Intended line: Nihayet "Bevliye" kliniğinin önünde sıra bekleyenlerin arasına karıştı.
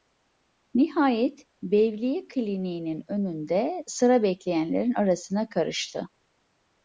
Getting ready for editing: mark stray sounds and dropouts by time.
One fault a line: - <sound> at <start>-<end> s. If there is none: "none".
none